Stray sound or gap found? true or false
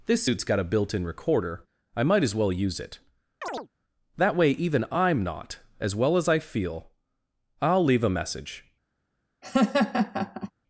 true